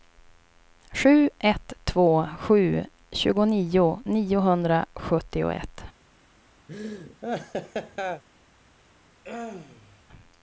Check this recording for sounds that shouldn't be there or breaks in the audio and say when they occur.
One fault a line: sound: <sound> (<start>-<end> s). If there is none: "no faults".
sound: laugh (6.7-8.2 s)
sound: throat clearing (9.2-10.0 s)